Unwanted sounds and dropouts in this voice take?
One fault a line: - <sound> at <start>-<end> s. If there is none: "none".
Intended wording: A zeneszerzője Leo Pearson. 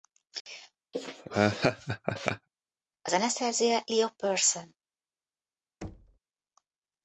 - laugh at 0.9-2.5 s
- thud at 5.8-6.2 s